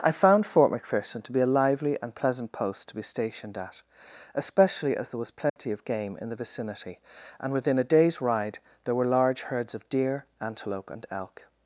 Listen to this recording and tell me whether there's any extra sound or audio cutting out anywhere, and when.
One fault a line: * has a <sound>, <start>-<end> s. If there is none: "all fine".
* has a dropout, 5.5-5.6 s